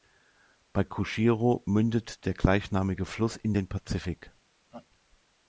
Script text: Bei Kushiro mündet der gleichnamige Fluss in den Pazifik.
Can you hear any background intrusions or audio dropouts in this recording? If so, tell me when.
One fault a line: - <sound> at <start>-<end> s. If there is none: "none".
- laugh at 4.7-4.9 s